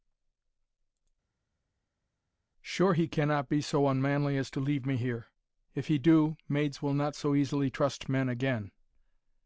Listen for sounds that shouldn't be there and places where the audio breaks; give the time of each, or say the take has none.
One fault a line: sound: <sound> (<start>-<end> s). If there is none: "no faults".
no faults